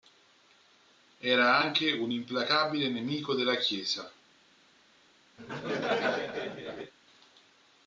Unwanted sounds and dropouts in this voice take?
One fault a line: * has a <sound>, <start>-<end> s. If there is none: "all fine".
* has a laugh, 5.4-6.9 s